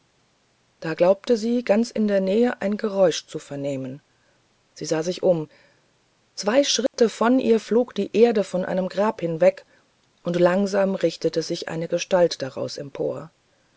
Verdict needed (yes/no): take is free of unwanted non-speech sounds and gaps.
no